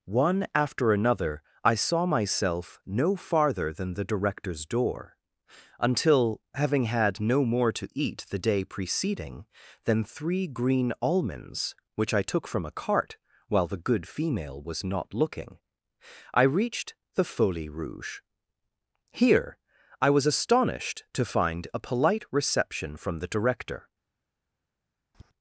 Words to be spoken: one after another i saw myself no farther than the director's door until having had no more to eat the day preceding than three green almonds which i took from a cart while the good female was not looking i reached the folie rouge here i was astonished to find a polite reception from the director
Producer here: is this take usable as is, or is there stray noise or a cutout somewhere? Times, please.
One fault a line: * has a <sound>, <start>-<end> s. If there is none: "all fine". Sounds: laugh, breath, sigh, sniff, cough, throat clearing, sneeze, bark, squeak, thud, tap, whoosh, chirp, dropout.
* has a tap, 25.1-25.3 s